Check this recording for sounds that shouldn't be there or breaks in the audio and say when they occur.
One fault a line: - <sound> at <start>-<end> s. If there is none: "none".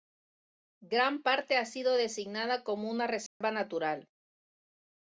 - dropout at 3.3-3.4 s